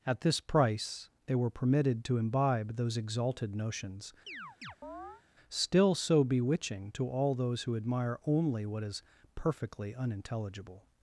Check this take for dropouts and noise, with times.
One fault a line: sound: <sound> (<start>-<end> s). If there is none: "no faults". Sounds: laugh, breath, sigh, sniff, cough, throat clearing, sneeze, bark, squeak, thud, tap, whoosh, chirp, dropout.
sound: chirp (4.3-5.2 s)